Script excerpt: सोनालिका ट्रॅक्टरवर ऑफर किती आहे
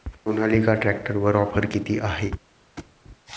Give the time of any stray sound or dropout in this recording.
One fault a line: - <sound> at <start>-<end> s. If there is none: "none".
- thud at 2.8-3.0 s